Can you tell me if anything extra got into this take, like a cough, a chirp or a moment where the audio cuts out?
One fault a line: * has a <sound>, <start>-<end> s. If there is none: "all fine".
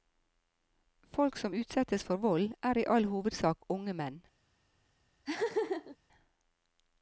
* has a laugh, 5.2-6.0 s